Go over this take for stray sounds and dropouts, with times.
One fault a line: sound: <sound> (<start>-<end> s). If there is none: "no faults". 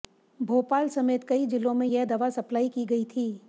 no faults